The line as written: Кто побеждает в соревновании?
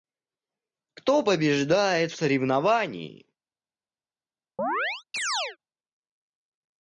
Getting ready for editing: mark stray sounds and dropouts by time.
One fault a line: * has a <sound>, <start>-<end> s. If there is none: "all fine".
* has a chirp, 4.6-5.6 s